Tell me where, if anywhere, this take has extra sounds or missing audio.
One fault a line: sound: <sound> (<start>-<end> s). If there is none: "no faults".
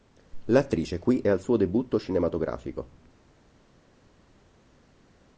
no faults